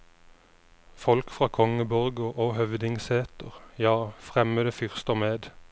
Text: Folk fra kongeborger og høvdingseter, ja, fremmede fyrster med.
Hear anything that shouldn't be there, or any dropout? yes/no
no